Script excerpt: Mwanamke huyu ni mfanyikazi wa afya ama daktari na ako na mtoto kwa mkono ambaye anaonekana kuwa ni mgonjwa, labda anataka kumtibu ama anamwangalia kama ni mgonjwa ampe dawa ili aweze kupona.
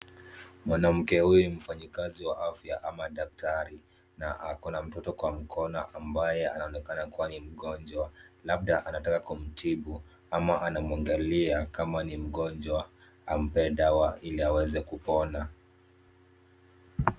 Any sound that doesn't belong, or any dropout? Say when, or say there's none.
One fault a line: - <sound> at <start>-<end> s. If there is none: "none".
none